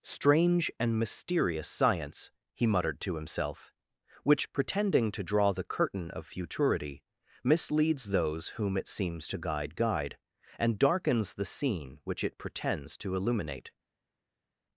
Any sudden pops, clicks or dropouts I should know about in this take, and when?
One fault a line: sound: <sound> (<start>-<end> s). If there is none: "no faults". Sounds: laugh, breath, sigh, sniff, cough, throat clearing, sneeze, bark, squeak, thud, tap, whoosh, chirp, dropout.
no faults